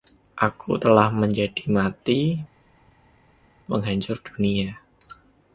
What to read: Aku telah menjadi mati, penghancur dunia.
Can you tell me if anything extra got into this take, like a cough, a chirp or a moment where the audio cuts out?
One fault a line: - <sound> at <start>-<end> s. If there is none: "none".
none